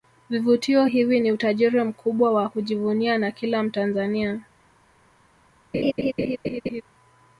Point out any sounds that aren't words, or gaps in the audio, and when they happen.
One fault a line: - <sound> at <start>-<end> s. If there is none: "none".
- laugh at 5.7-6.8 s